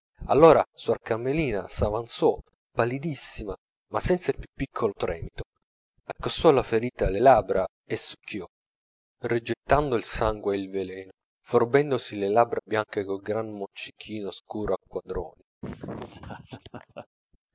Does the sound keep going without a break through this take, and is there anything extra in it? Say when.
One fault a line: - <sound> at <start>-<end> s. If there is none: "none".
- laugh at 15.6-17.1 s